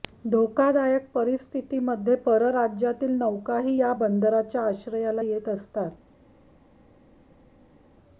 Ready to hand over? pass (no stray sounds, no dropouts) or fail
pass